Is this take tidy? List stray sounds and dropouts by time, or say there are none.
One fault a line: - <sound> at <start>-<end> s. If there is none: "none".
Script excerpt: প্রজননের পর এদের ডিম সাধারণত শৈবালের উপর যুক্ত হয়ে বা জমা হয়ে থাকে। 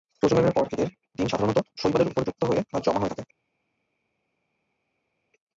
none